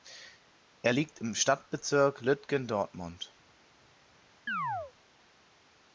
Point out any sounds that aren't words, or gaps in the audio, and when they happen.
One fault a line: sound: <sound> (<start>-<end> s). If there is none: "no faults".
sound: chirp (4.5-4.9 s)